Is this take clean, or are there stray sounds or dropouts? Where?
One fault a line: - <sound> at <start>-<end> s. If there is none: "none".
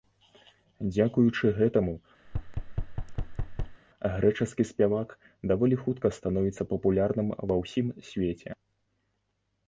- thud at 2.2-3.8 s